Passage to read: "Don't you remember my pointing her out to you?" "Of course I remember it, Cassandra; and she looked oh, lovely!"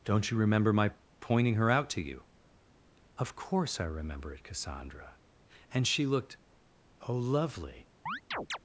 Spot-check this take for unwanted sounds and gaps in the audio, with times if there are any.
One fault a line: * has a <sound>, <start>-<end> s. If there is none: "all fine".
* has a chirp, 8.1-8.6 s